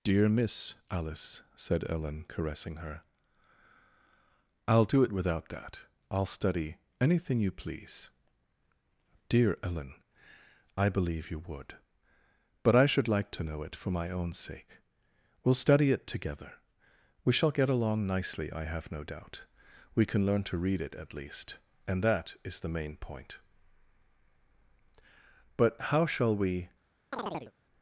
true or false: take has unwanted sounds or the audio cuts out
true